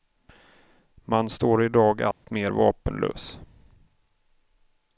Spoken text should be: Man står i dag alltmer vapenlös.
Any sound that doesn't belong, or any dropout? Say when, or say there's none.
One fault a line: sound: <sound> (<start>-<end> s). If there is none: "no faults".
sound: dropout (2.1-2.2 s)